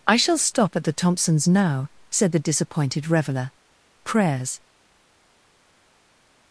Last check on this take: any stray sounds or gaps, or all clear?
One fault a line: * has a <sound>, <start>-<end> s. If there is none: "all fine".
all fine